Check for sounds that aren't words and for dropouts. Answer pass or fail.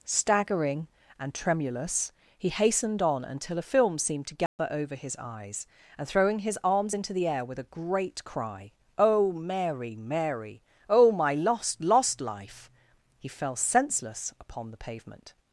fail